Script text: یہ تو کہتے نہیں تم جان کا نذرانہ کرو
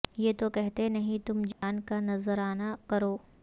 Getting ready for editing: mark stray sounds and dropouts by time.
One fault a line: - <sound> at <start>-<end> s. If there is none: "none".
- dropout at 1.5-1.6 s